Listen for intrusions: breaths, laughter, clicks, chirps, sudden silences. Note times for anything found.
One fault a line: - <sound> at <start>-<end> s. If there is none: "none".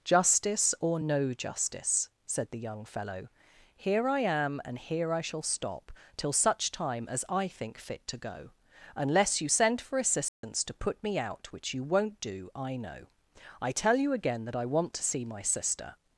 - dropout at 10.3-10.4 s